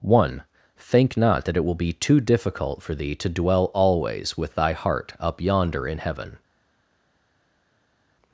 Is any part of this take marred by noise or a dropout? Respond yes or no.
no